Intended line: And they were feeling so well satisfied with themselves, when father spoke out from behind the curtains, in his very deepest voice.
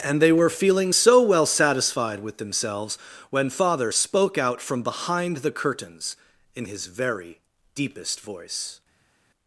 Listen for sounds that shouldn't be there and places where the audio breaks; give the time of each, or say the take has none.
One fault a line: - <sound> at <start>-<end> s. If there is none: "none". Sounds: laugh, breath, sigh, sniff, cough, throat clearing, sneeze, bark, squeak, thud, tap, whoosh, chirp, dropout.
none